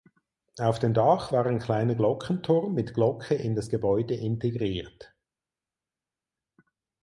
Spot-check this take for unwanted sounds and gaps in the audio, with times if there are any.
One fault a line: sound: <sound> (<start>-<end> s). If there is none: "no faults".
no faults